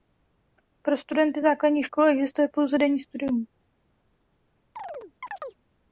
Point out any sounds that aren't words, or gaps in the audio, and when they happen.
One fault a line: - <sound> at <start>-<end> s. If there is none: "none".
- chirp at 4.8-5.6 s